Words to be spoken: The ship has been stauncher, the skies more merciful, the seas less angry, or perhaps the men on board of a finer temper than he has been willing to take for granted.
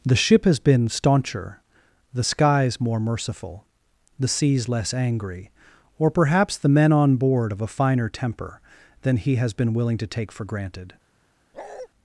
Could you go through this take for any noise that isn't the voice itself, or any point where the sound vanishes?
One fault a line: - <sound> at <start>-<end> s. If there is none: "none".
- bark at 11.5-11.9 s